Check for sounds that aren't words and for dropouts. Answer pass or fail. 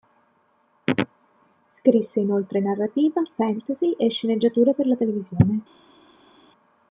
pass